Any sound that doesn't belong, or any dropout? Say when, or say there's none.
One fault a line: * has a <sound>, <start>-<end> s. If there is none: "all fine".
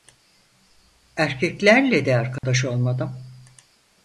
* has a dropout, 2.4-2.4 s